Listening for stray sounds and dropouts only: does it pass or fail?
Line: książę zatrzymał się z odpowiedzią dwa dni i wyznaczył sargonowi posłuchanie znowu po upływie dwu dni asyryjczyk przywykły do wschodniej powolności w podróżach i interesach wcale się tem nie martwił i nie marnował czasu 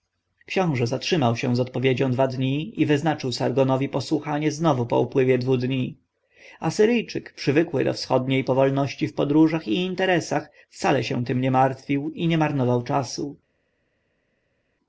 pass